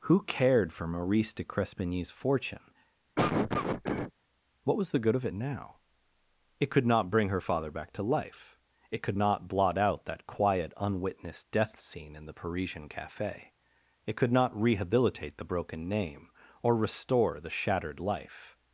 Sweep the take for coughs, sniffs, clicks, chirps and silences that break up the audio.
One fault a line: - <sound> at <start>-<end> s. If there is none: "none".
- cough at 3.2-4.1 s